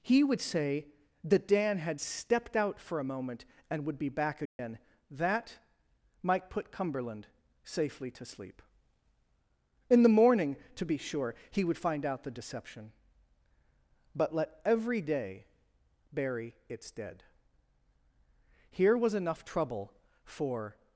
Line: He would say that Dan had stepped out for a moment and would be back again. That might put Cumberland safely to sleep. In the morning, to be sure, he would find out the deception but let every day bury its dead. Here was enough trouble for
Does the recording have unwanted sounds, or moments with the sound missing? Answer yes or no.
yes